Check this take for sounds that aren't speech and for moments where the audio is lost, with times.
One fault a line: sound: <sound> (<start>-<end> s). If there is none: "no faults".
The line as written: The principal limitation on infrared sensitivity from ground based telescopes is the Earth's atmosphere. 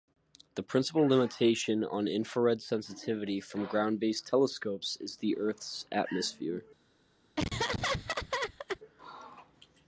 sound: laugh (7.4-8.8 s)